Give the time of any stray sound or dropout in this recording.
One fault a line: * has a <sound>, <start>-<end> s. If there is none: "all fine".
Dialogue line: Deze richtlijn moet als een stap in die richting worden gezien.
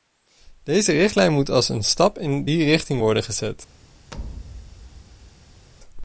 * has a thud, 4.1-5.7 s